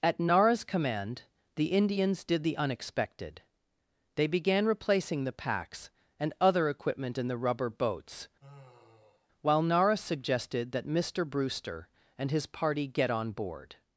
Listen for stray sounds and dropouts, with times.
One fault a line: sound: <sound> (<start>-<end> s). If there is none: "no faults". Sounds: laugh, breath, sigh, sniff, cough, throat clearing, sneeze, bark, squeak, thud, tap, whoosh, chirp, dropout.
sound: sigh (8.4-9.3 s)